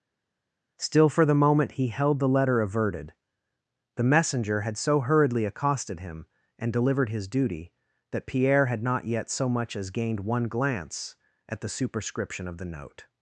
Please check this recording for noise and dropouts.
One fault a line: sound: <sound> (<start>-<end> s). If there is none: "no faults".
no faults